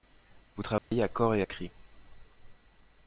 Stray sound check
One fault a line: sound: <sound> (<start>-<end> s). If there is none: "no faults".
sound: dropout (0.8-0.9 s)